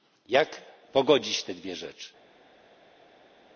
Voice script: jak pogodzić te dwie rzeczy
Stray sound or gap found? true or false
false